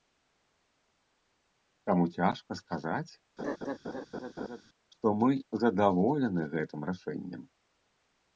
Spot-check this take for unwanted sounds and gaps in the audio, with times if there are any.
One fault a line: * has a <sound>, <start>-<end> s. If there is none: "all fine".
* has a laugh, 3.4-4.6 s